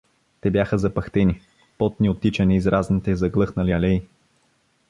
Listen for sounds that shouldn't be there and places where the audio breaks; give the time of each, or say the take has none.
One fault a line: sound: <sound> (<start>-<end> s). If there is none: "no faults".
no faults